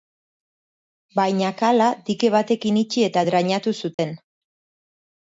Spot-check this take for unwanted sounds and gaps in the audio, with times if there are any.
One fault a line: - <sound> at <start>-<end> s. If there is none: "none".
- dropout at 3.9-4.0 s